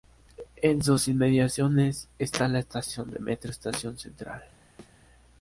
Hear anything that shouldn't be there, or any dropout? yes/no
yes